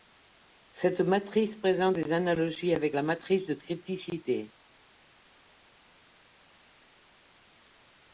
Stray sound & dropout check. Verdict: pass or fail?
pass